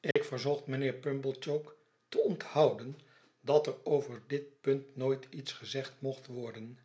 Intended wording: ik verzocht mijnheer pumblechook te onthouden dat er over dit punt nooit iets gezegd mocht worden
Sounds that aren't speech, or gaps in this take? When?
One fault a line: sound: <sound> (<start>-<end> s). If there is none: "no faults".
sound: dropout (0.1-0.2 s)